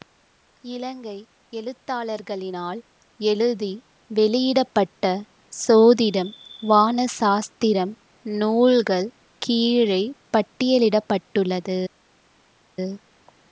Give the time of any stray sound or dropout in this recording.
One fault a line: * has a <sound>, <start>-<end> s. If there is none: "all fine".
all fine